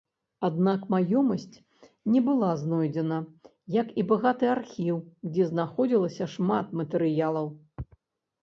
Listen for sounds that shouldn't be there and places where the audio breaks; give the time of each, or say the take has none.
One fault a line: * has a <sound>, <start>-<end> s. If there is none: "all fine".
all fine